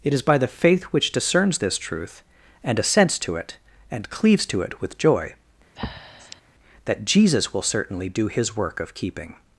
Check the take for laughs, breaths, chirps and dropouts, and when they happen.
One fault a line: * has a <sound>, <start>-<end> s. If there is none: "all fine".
* has a breath, 5.8-6.4 s